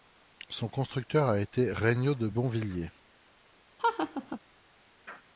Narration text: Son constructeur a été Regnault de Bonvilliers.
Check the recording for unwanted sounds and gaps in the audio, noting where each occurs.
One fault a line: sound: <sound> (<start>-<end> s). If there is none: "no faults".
sound: laugh (3.8-4.4 s)